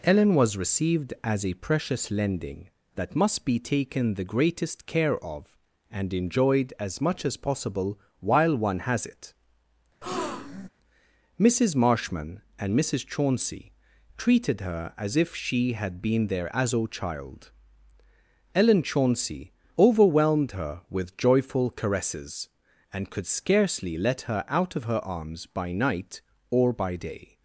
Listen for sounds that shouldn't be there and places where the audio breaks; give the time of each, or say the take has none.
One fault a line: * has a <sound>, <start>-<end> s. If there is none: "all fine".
* has a breath, 10.0-10.7 s